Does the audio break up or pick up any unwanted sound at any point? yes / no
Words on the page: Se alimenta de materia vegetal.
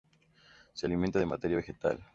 no